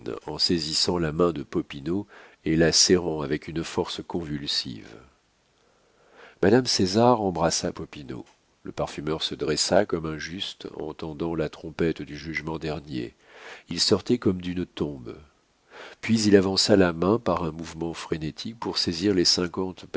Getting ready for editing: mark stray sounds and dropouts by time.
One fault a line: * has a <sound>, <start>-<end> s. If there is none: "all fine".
all fine